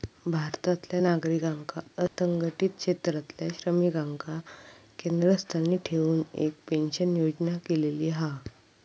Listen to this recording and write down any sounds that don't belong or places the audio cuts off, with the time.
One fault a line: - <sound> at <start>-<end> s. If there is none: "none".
- dropout at 2.1-2.2 s